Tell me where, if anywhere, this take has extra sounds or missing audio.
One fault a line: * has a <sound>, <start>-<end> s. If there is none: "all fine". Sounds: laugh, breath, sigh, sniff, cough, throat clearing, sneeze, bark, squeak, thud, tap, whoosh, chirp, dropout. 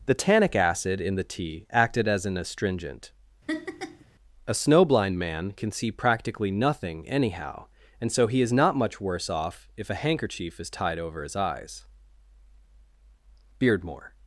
* has a laugh, 3.5-4.1 s